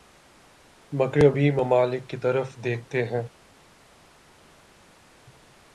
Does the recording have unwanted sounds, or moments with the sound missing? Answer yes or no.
no